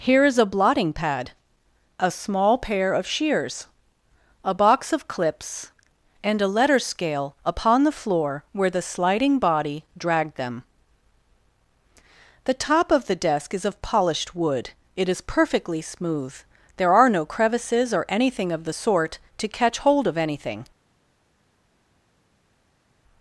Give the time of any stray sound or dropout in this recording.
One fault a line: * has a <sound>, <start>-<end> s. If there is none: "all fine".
all fine